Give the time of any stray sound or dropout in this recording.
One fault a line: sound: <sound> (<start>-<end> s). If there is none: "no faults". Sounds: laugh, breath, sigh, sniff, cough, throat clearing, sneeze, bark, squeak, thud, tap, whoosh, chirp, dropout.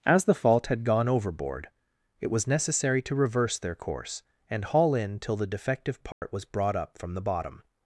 sound: dropout (6.1-6.2 s)